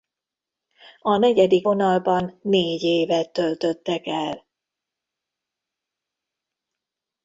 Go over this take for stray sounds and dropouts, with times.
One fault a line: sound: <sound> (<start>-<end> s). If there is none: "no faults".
no faults